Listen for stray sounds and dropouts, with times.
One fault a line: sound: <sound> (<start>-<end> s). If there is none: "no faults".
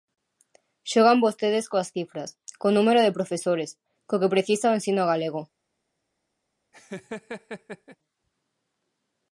sound: laugh (6.7-8.0 s)